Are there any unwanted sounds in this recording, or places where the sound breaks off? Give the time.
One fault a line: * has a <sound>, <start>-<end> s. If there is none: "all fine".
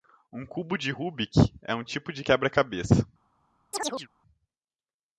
* has a chirp, 3.7-4.1 s